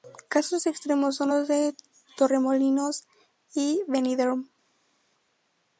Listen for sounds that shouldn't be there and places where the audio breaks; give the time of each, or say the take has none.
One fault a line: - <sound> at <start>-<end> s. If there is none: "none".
none